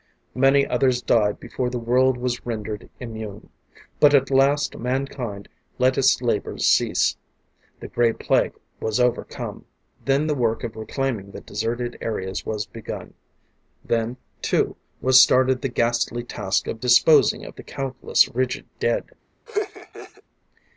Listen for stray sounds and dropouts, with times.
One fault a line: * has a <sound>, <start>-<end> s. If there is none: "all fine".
* has a laugh, 19.5-20.2 s